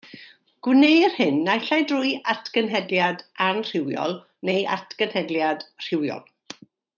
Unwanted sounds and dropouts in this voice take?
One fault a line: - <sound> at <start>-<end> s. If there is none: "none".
none